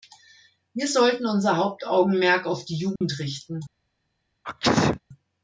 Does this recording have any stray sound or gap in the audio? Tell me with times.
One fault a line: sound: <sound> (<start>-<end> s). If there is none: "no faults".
sound: dropout (3.0-3.0 s)
sound: sneeze (4.4-5.0 s)